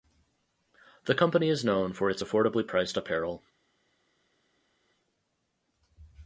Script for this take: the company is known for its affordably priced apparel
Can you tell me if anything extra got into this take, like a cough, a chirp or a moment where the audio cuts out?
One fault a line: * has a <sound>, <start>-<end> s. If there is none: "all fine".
all fine